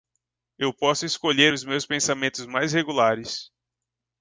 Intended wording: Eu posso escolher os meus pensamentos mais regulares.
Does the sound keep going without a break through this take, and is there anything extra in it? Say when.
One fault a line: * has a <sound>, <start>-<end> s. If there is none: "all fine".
all fine